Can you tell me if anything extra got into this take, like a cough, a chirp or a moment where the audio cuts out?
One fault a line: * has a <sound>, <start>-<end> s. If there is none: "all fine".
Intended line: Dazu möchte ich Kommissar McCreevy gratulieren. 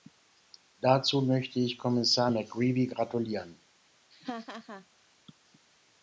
* has a laugh, 4.1-4.9 s